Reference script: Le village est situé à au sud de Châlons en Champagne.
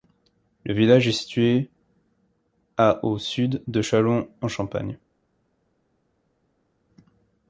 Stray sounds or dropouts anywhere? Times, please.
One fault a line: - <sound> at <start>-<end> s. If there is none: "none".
none